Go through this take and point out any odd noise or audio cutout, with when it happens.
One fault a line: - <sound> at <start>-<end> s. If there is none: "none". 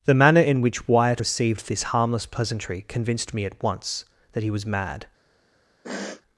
- sniff at 5.8-6.2 s